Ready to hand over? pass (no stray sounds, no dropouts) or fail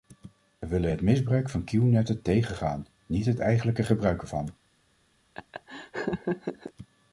fail